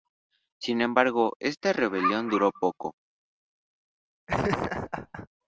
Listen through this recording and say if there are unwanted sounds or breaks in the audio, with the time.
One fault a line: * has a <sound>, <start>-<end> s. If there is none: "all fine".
* has a laugh, 4.3-5.3 s